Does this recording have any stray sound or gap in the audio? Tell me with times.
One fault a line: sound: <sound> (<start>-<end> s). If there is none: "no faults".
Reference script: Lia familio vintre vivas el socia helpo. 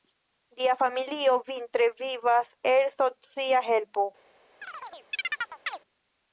sound: chirp (4.6-5.8 s)